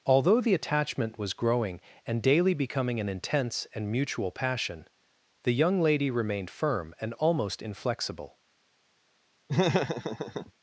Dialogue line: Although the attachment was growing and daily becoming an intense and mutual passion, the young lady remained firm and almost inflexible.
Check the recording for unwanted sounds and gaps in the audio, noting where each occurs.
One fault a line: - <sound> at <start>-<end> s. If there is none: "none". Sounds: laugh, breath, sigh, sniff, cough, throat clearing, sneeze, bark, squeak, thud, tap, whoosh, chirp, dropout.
- laugh at 9.5-10.5 s